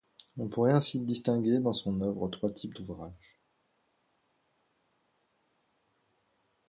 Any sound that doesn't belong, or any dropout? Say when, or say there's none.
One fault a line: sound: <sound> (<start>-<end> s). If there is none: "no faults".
no faults